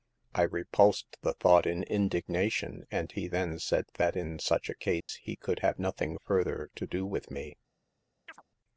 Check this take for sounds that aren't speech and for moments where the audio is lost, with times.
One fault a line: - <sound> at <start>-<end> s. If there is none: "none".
- dropout at 5.0-5.1 s
- chirp at 8.3-8.4 s